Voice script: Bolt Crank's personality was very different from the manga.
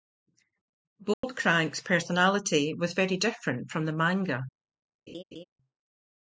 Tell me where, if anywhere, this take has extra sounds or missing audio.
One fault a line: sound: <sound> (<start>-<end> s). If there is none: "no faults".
sound: dropout (1.1-1.2 s)
sound: laugh (5.1-5.4 s)